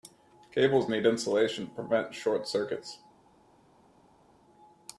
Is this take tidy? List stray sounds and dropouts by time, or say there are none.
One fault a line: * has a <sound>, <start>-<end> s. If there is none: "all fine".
all fine